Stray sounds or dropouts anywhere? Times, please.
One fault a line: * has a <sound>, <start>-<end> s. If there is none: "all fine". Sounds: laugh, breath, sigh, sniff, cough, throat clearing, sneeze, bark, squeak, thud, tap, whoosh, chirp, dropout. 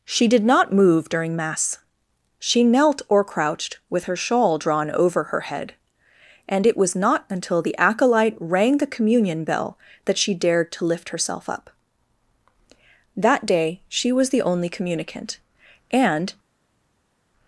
all fine